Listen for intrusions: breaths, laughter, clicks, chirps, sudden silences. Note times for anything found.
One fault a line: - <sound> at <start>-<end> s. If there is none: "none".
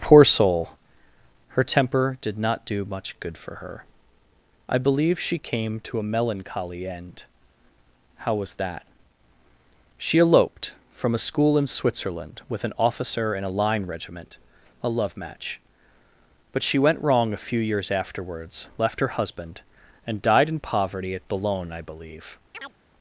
- chirp at 22.5-22.7 s